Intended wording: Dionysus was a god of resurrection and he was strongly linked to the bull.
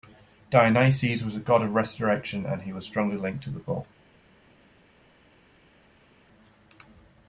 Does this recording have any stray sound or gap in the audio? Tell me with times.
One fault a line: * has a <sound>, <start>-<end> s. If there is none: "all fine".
all fine